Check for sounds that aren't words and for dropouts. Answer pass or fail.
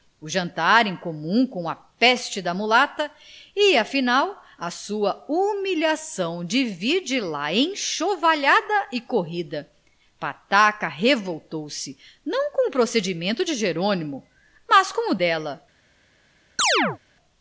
fail